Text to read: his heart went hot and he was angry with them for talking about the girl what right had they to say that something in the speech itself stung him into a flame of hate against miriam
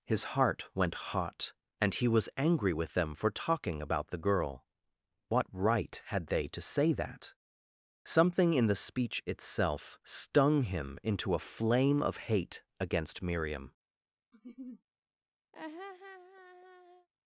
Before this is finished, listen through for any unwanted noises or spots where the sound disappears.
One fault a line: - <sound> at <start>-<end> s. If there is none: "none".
- laugh at 14.3-14.8 s
- laugh at 15.5-17.1 s